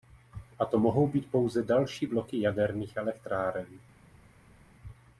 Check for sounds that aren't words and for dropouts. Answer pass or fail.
pass